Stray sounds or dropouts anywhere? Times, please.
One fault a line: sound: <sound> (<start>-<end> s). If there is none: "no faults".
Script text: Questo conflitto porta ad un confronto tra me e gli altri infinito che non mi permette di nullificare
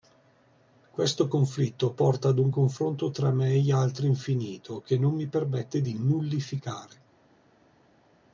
no faults